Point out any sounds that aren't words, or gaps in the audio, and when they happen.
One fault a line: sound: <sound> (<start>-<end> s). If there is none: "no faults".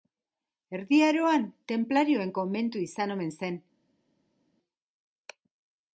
no faults